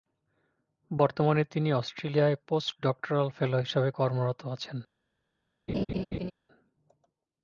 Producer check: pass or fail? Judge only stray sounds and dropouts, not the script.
fail